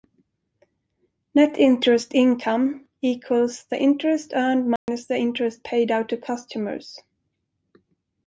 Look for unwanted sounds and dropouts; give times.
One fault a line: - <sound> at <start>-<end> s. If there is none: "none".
- dropout at 4.8-4.9 s